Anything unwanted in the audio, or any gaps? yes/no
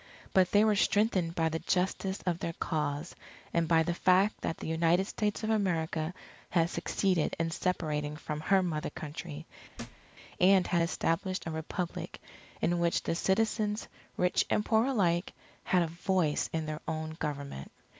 yes